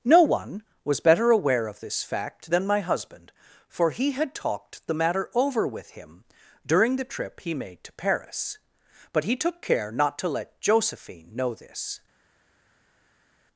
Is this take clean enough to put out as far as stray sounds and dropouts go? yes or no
yes